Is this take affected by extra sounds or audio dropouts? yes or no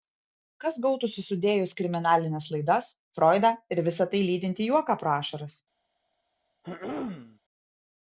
yes